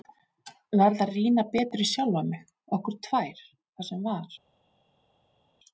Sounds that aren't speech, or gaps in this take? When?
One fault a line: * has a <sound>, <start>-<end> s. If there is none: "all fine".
all fine